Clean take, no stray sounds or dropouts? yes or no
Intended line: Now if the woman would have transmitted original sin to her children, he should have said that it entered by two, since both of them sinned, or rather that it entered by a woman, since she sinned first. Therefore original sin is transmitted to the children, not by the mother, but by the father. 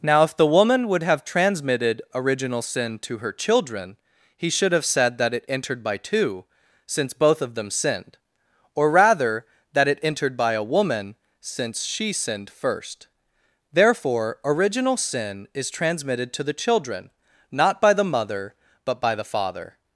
yes